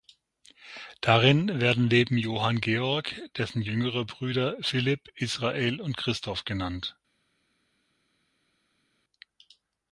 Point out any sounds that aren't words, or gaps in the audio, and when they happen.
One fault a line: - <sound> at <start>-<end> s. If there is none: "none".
none